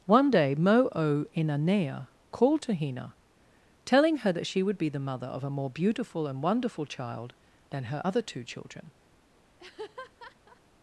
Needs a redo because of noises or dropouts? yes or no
yes